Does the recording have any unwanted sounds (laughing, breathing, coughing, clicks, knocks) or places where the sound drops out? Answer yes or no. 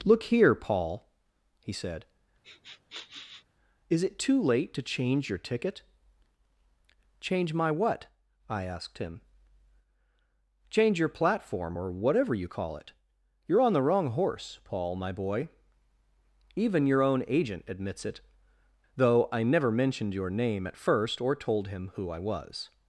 yes